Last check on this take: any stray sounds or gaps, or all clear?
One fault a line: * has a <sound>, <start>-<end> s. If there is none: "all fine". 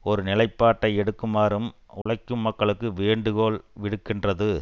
* has a dropout, 2.0-2.1 s